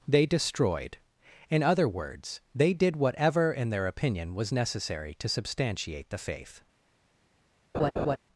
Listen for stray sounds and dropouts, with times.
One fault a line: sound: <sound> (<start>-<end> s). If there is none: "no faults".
sound: laugh (7.7-8.2 s)